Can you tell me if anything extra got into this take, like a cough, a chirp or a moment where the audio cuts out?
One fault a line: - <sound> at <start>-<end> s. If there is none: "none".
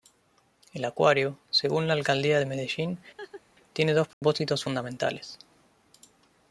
- laugh at 3.2-3.4 s
- dropout at 4.1-4.2 s